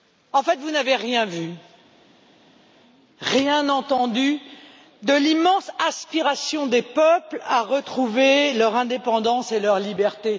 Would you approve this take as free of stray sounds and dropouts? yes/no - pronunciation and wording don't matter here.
yes